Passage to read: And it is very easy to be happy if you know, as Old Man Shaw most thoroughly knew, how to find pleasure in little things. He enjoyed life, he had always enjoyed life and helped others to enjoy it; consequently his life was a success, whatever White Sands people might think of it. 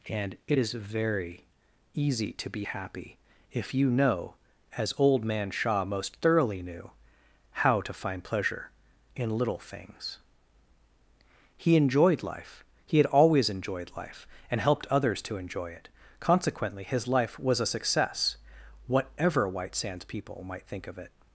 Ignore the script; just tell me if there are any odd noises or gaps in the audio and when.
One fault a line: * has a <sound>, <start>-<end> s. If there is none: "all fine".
all fine